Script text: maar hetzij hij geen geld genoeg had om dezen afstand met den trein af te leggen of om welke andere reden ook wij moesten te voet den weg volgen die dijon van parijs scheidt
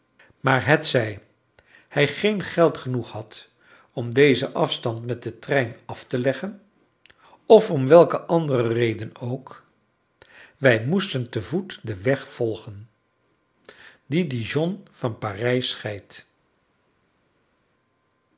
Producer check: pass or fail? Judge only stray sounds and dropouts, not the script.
pass